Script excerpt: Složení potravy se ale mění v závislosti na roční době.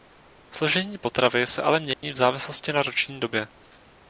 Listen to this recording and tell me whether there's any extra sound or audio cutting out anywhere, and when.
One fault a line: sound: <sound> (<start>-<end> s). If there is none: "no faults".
sound: dropout (1.9-2.0 s)